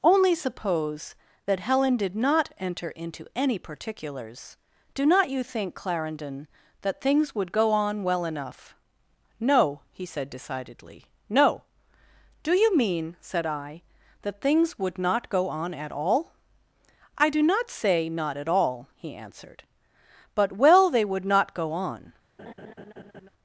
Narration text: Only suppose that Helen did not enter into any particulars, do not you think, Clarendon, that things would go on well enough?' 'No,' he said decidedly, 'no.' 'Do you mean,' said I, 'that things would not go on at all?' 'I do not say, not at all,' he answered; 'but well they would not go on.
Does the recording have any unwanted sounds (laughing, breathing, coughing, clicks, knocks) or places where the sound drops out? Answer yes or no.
yes